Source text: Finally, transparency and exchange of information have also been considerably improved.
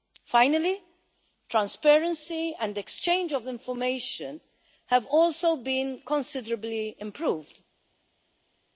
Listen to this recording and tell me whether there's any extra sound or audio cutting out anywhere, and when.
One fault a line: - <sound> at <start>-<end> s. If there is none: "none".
none